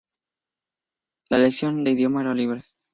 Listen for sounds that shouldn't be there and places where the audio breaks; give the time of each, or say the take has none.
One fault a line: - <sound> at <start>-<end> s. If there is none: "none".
none